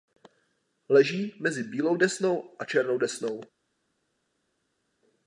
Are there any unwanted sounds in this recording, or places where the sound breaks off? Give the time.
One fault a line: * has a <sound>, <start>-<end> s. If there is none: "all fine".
all fine